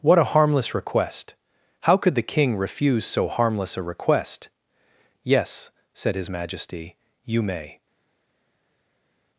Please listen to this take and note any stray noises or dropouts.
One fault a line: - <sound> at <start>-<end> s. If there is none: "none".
none